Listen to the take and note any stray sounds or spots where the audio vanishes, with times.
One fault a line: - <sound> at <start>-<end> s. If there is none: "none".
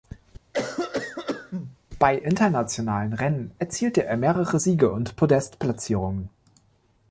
- cough at 0.5-1.8 s